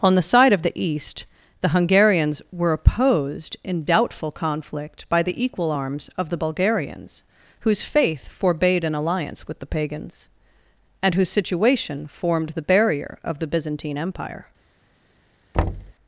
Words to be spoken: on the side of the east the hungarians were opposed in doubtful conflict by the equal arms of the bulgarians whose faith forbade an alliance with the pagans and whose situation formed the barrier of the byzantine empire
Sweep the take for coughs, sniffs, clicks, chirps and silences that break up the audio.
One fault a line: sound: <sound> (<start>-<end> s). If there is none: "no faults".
sound: thud (15.5-15.9 s)